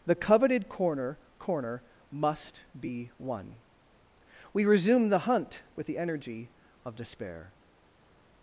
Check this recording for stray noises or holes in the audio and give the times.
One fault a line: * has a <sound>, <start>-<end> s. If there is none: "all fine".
all fine